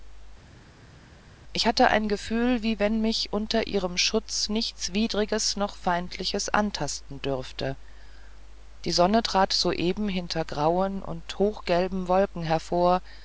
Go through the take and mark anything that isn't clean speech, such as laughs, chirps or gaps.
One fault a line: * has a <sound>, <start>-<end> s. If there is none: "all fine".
all fine